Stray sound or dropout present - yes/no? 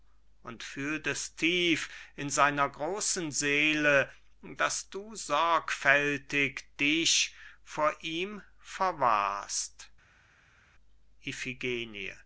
no